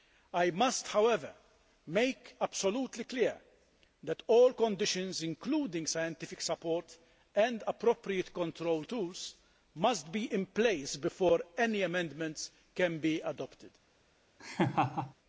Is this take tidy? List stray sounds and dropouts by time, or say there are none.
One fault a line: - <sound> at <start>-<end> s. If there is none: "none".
- laugh at 14.4-15.1 s